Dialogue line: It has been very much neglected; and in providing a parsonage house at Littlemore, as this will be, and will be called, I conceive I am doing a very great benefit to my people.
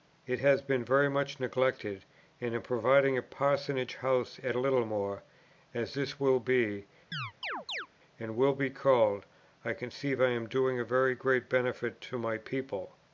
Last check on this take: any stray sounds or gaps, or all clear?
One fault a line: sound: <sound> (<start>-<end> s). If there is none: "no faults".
sound: chirp (7.1-7.9 s)